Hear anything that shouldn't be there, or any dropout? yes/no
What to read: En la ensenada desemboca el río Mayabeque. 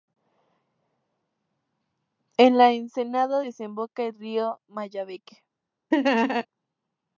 yes